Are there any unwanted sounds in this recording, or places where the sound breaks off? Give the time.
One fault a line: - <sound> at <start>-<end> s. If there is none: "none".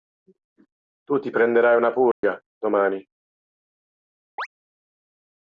- dropout at 2.1-2.2 s
- chirp at 4.4-4.5 s